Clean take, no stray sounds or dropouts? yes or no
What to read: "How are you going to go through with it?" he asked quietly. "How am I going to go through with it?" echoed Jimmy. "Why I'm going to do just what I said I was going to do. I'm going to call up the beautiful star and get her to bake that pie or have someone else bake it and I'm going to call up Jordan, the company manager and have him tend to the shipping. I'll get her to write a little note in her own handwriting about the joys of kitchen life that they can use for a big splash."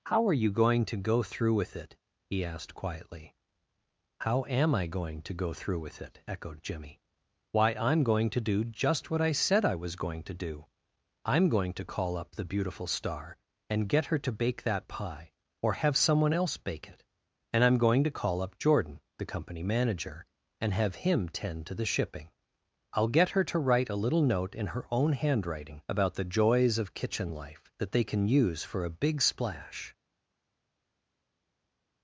yes